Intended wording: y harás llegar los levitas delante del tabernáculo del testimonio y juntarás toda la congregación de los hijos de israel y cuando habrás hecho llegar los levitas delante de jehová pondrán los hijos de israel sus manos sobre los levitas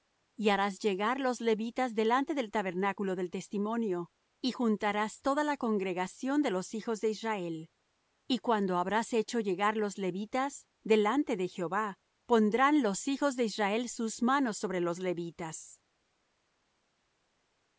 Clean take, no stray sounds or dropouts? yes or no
yes